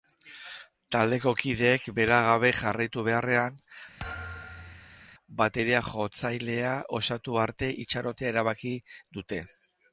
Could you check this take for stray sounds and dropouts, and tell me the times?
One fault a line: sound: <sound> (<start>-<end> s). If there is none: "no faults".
sound: thud (4.0-5.1 s)